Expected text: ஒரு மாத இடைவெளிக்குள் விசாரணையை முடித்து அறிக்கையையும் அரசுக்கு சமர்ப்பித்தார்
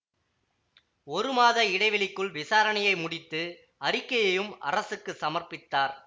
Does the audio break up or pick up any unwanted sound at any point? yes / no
no